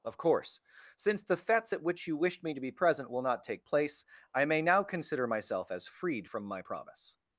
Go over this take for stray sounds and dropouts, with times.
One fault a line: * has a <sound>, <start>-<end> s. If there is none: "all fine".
all fine